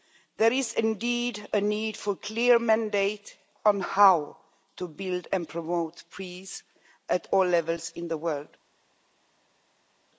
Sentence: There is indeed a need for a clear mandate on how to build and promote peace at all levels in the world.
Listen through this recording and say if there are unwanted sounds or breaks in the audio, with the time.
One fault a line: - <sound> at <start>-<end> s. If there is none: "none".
none